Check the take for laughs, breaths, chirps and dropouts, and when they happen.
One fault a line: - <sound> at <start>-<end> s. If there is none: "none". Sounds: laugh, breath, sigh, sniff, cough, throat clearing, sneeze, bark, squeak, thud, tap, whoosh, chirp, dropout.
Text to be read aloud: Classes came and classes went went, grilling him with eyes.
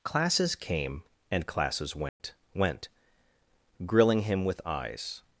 - dropout at 2.1-2.2 s